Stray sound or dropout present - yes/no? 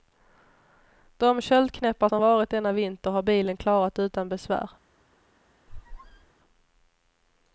yes